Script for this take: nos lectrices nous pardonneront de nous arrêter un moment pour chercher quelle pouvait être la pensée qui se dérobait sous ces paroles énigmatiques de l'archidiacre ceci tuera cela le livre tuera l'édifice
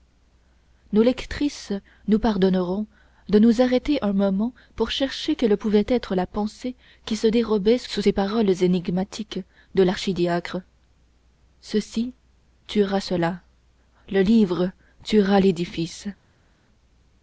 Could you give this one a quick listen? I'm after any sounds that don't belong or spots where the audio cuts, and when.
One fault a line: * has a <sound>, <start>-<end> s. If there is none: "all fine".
all fine